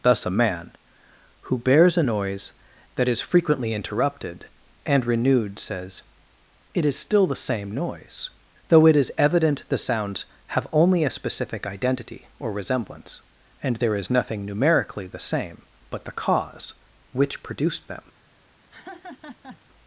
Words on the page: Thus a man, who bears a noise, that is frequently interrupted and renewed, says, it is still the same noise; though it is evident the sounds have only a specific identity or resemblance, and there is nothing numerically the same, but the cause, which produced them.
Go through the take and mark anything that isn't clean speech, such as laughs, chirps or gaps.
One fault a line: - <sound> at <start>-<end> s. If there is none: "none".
- laugh at 18.7-19.6 s